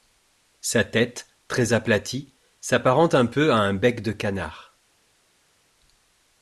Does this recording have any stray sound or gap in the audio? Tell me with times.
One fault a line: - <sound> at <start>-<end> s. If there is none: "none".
none